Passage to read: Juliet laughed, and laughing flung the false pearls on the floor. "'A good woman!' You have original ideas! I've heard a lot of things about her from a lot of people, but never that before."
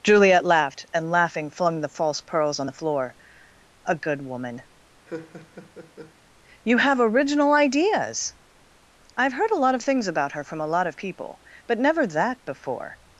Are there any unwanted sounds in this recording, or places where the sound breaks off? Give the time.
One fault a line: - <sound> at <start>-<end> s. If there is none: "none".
- laugh at 5.1-6.1 s